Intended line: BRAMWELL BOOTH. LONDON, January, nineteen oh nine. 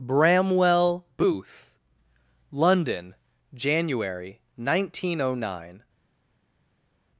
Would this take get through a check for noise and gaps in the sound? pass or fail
pass